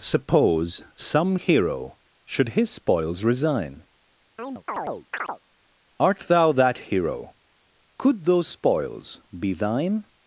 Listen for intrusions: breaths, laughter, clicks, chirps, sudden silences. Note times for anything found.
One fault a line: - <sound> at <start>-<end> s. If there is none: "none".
- chirp at 4.4-5.4 s